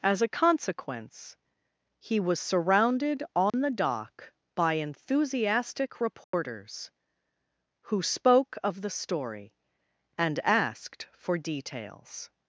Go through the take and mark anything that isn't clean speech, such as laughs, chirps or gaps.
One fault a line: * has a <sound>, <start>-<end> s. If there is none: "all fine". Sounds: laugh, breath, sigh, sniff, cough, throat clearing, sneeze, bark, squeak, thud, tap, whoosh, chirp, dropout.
* has a dropout, 3.5-3.5 s
* has a dropout, 6.2-6.3 s